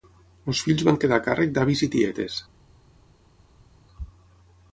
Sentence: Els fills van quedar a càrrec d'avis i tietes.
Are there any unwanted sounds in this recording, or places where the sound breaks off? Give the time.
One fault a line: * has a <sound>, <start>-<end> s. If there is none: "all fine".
all fine